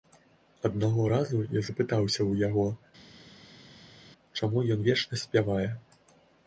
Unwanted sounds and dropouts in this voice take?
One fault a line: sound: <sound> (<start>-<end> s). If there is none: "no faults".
no faults